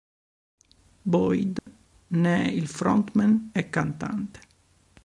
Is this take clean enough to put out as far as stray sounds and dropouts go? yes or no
no